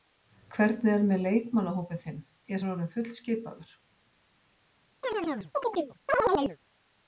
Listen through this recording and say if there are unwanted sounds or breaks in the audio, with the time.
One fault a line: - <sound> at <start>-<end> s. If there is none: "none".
- chirp at 5.0-6.6 s